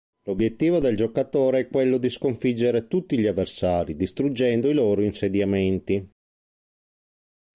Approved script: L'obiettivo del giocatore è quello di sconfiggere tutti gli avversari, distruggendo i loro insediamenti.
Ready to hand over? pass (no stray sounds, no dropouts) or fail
pass